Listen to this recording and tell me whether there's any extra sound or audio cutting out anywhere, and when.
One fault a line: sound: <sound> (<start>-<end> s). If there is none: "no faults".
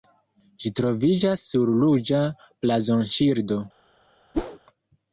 sound: whoosh (4.3-4.6 s)